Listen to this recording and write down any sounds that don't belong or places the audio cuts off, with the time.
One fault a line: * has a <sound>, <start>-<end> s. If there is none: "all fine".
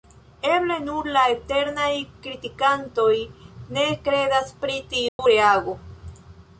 * has a dropout, 5.1-5.2 s